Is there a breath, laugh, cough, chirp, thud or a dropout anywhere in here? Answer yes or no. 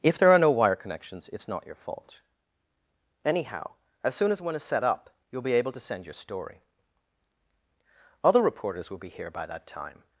no